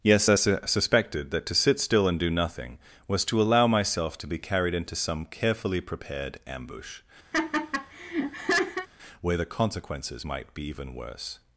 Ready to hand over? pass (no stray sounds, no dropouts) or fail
fail